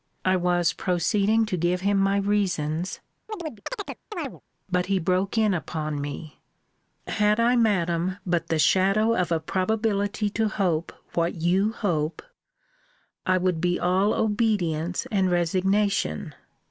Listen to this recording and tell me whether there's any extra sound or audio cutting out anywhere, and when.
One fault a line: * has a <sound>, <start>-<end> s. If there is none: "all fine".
* has a chirp, 3.3-4.4 s